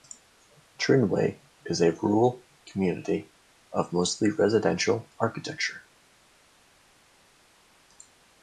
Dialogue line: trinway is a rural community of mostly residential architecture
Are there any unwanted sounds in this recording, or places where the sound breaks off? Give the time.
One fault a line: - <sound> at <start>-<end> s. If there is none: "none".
none